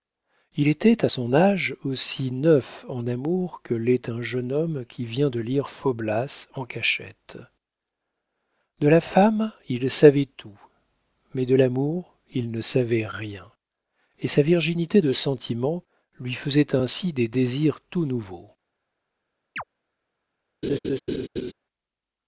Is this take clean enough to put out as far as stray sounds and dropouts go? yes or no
no